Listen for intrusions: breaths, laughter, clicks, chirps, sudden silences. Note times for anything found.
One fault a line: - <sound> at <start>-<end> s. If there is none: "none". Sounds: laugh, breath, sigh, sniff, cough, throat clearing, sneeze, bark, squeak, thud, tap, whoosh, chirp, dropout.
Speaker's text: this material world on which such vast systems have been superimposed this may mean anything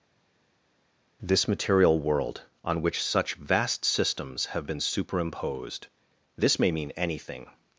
none